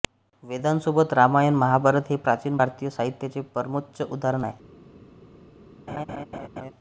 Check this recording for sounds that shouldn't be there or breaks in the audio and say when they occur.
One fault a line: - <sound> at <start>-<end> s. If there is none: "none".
- laugh at 5.9-6.7 s